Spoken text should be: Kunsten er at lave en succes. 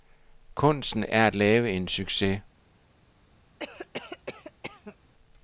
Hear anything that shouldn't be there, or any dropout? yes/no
yes